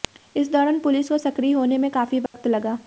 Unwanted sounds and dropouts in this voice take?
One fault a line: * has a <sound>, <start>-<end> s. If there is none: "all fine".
* has a dropout, 2.3-2.3 s